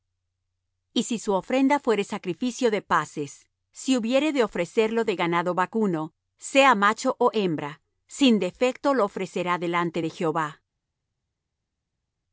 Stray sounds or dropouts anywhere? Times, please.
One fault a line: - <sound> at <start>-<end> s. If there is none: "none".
none